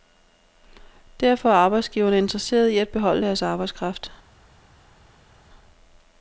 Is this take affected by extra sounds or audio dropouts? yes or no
no